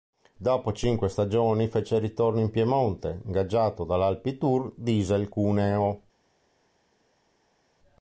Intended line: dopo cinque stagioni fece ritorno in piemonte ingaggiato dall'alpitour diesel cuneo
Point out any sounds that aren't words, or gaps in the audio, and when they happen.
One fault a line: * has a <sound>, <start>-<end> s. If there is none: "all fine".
all fine